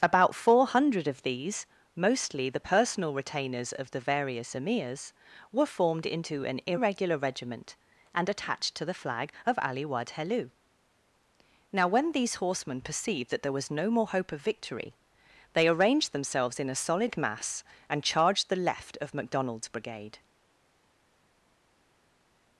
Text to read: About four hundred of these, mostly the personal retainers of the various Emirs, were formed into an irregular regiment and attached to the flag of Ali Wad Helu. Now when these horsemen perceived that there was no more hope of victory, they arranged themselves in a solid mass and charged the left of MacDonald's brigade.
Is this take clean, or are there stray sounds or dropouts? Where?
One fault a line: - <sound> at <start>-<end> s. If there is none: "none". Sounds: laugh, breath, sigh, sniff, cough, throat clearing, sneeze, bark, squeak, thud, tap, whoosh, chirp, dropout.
none